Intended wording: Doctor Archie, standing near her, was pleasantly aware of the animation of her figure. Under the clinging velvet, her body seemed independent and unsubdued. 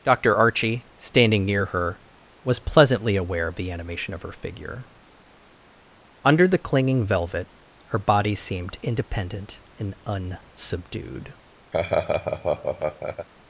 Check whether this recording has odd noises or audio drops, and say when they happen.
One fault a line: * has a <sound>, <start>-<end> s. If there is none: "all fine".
* has a laugh, 11.7-13.3 s